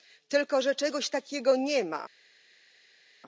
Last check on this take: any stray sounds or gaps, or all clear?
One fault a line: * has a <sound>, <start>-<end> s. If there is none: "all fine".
all fine